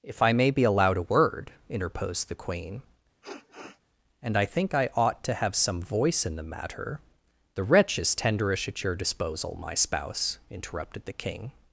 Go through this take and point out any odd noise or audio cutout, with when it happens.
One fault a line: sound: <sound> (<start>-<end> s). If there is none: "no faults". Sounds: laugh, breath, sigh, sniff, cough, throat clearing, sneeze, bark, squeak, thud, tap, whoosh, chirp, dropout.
sound: sniff (3.2-3.8 s)